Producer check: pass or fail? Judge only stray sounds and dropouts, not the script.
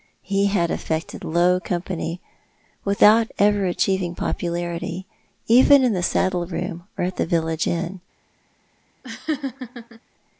fail